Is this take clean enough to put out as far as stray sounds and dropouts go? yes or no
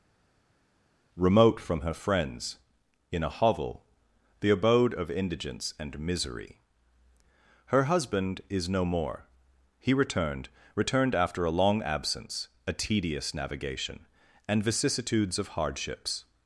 yes